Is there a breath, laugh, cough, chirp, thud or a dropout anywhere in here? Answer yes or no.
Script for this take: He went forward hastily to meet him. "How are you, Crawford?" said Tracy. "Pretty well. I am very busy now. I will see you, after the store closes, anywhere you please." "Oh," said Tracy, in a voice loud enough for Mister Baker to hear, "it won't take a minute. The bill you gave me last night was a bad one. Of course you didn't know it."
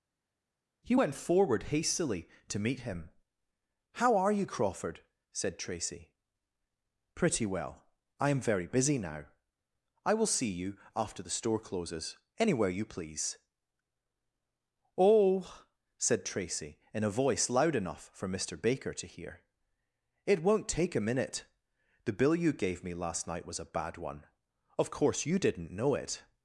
no